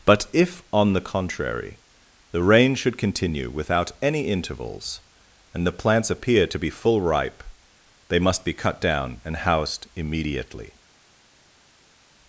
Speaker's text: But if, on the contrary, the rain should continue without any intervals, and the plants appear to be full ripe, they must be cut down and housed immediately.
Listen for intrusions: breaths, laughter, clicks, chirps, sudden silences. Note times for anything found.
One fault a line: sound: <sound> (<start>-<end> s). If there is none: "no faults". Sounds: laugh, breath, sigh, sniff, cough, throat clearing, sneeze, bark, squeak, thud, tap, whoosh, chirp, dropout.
no faults